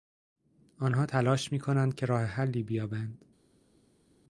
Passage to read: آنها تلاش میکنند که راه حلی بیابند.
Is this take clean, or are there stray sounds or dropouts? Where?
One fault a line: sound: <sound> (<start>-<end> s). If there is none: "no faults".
no faults